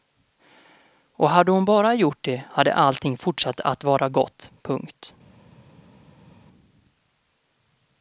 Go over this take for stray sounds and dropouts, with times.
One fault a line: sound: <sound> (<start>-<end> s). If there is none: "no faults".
no faults